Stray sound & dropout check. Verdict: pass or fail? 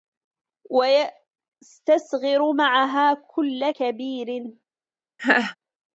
fail